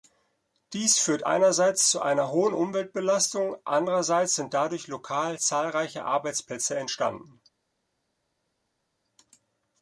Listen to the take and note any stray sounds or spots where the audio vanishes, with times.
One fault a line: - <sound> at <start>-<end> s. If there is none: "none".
none